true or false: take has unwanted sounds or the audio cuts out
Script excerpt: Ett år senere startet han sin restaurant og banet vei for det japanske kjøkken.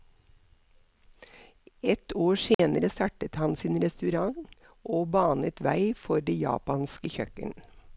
true